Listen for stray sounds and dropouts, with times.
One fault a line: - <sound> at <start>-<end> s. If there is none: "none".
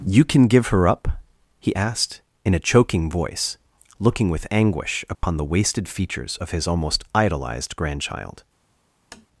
- dropout at 5.1-5.2 s
- tap at 9.1-9.3 s